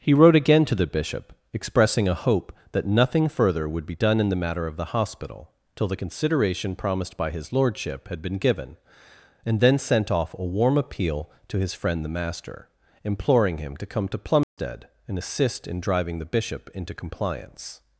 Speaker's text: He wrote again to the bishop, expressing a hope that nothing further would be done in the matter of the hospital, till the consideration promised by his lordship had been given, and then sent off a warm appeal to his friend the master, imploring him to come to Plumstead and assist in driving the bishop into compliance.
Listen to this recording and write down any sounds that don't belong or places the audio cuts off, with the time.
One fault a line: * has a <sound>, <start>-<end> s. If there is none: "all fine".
* has a dropout, 14.4-14.6 s